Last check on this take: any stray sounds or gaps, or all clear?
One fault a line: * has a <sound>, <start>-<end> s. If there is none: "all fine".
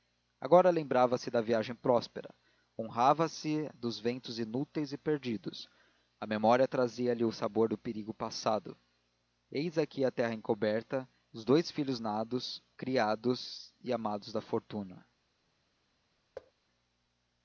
* has a thud, 16.4-16.5 s